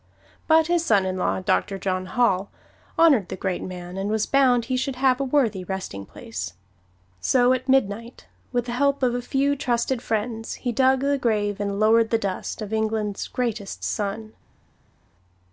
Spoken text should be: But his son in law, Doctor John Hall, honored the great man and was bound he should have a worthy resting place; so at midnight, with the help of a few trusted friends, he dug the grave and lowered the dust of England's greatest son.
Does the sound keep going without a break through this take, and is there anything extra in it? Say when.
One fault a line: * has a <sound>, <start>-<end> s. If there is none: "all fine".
all fine